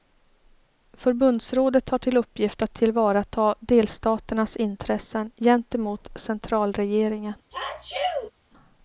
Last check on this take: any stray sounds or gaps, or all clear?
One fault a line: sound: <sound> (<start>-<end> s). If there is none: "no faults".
sound: sneeze (7.5-8.3 s)